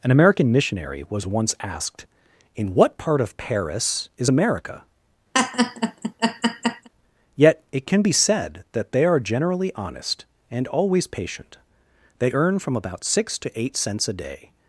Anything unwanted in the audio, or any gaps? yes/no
yes